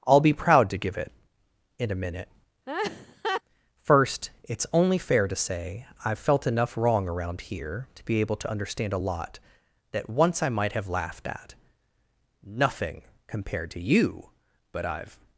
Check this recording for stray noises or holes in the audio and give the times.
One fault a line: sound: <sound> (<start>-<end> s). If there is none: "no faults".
sound: laugh (2.7-3.4 s)